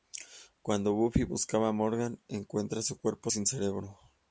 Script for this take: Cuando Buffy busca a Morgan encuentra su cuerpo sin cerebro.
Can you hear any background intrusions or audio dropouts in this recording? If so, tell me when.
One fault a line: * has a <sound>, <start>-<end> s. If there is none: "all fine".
all fine